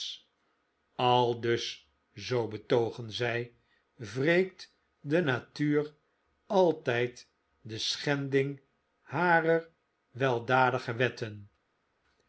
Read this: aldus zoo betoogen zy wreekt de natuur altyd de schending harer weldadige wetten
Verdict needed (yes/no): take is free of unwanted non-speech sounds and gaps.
yes